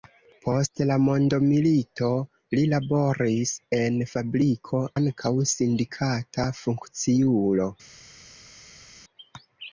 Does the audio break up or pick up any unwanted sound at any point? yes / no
no